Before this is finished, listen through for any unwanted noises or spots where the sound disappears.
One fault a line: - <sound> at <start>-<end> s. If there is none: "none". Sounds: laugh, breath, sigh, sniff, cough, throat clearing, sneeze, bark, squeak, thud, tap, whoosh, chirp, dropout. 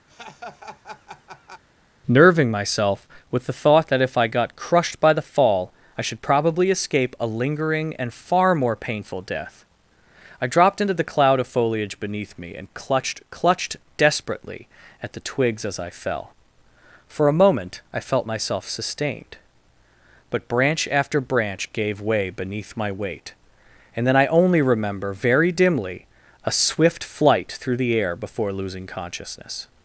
- laugh at 0.1-1.6 s